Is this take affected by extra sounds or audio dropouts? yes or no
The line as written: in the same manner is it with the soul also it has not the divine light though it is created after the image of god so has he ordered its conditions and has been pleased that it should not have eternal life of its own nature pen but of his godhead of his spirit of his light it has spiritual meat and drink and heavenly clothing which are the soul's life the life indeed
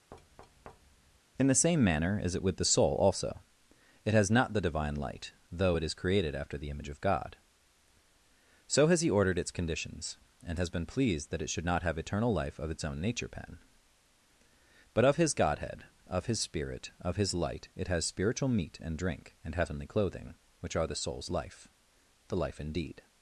yes